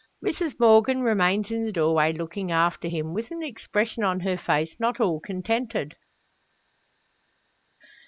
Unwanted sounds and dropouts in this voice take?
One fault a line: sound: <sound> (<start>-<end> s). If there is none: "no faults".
no faults